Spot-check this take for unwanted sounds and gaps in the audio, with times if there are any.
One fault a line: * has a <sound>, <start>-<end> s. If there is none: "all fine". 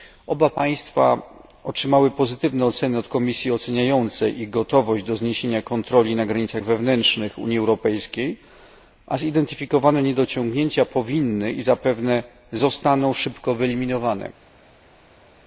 all fine